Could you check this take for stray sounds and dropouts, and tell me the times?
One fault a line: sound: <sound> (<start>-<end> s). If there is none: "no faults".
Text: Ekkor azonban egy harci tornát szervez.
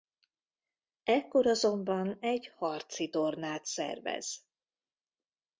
no faults